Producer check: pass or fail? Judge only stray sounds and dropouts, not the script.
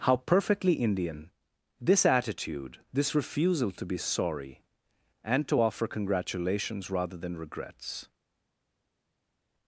pass